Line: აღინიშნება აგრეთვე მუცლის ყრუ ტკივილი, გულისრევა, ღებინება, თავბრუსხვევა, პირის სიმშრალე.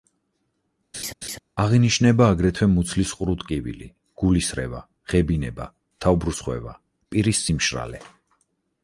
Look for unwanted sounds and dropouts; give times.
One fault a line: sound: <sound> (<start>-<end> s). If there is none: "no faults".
sound: laugh (0.9-1.4 s)